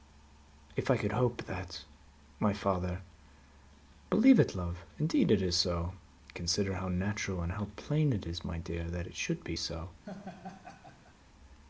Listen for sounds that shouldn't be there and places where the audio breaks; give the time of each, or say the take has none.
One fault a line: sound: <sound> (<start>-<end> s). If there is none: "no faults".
sound: laugh (10.0-11.2 s)